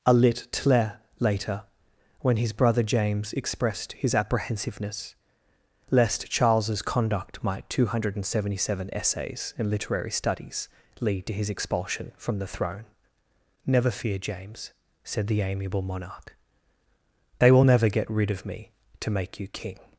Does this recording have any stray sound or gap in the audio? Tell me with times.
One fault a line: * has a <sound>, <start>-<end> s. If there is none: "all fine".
all fine